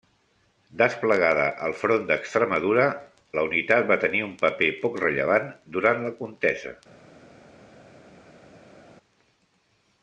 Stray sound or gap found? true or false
false